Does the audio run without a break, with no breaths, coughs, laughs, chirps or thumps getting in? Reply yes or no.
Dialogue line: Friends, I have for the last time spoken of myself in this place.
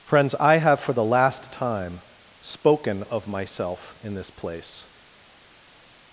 yes